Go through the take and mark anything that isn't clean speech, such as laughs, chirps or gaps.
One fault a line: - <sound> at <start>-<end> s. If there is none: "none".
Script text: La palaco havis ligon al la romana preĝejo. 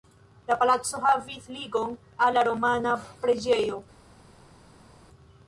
none